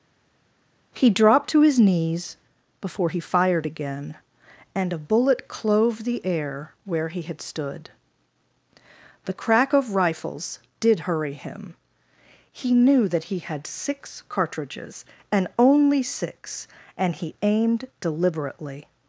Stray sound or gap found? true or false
false